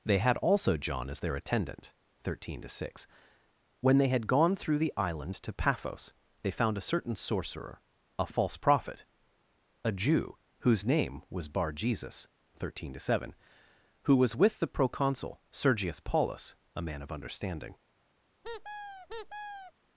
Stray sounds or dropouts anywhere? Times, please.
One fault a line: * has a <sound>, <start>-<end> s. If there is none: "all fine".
* has a squeak, 18.4-19.7 s